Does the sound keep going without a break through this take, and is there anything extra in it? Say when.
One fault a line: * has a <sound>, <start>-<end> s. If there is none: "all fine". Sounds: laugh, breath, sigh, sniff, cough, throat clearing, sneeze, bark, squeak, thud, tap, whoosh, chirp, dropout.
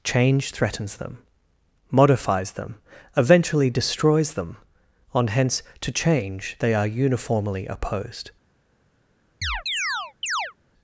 * has a chirp, 9.4-10.5 s